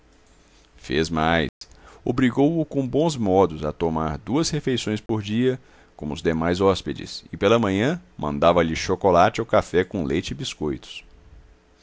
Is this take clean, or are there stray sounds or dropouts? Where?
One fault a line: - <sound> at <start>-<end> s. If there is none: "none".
- dropout at 1.5-1.6 s
- dropout at 5.1-5.1 s